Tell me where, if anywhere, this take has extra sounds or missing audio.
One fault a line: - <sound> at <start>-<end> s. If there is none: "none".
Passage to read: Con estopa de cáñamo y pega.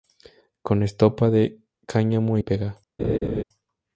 - laugh at 3.0-3.4 s